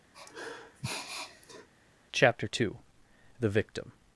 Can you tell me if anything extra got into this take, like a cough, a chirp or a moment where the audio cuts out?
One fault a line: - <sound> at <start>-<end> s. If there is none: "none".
- sniff at 0.1-1.7 s